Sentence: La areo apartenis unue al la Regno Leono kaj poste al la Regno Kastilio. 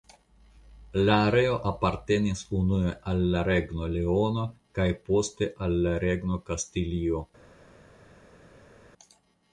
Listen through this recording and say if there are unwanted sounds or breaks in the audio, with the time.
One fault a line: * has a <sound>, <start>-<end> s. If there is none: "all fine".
all fine